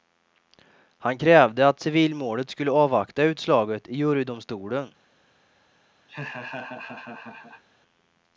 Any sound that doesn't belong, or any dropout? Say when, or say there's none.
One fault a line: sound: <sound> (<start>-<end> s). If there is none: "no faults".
sound: laugh (6.1-7.6 s)